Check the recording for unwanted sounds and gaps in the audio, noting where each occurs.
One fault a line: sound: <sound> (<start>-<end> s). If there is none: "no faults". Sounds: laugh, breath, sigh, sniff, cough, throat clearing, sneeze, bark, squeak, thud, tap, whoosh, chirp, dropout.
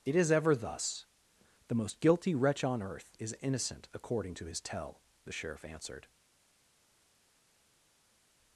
no faults